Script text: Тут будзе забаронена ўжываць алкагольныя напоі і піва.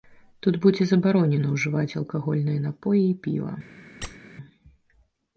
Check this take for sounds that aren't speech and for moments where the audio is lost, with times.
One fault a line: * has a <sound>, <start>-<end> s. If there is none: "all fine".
* has a squeak, 4.0-4.2 s